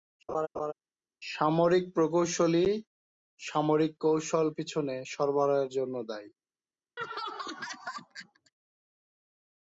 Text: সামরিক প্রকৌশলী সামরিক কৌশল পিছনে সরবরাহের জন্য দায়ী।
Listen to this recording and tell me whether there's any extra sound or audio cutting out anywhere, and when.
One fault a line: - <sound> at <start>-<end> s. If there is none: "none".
- laugh at 0.3-0.7 s
- laugh at 7.0-8.5 s